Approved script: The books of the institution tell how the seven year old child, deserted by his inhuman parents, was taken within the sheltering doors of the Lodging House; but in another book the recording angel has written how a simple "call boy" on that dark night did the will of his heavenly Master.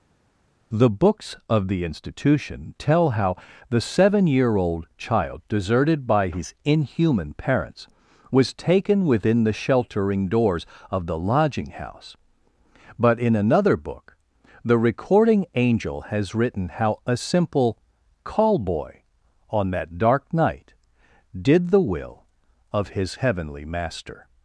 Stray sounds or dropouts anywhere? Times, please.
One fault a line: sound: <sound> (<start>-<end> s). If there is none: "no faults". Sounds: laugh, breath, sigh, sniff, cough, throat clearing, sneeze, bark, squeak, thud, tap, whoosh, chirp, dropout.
no faults